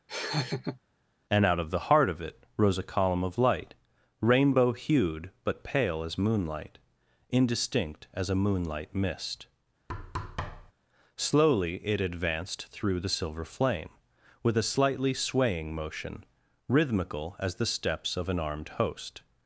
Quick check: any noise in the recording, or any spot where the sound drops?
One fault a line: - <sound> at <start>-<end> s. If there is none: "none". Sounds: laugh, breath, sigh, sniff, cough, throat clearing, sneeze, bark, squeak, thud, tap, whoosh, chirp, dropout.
- laugh at 0.1-0.8 s
- thud at 9.9-10.7 s